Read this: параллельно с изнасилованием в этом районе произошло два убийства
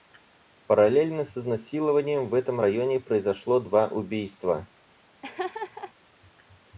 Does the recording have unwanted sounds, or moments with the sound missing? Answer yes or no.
yes